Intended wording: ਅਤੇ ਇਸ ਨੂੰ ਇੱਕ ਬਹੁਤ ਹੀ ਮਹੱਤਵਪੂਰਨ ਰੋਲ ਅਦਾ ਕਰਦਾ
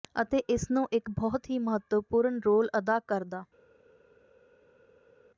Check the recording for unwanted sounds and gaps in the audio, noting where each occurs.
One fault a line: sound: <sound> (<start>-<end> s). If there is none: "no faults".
no faults